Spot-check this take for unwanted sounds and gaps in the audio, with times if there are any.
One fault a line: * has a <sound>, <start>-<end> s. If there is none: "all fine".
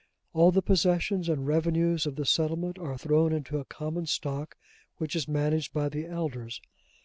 all fine